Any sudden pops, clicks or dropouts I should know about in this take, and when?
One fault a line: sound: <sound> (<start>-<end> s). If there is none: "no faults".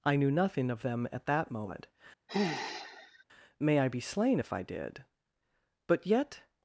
sound: sigh (2.3-3.2 s)